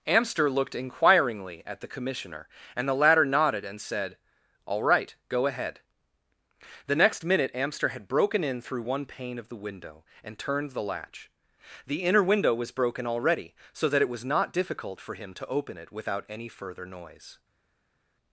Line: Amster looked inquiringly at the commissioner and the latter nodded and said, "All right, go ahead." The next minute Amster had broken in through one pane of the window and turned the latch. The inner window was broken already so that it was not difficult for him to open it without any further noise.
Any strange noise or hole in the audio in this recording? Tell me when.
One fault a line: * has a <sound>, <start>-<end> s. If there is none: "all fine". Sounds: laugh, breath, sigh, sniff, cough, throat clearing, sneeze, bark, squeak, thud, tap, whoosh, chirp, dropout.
all fine